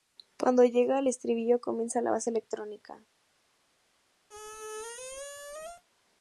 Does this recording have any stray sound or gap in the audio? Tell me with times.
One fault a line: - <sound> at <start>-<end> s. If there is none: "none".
- squeak at 4.3-5.8 s